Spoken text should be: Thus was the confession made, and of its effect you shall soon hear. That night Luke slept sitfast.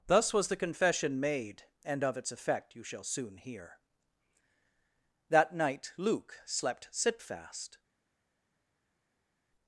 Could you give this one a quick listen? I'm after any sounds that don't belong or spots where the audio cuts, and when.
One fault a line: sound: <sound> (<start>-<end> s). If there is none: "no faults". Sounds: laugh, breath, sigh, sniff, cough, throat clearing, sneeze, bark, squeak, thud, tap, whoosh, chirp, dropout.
no faults